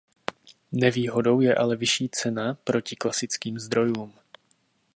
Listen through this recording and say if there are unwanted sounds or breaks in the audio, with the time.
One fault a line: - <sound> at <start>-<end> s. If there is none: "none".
none